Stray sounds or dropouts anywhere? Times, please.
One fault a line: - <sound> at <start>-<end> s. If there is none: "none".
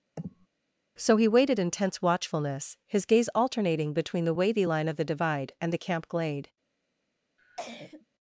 - sniff at 0.2-0.5 s
- cough at 7.4-8.1 s